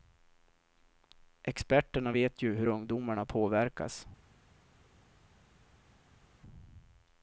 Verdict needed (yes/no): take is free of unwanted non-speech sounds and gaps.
yes